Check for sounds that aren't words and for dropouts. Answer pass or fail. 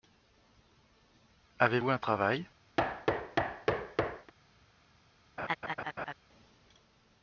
fail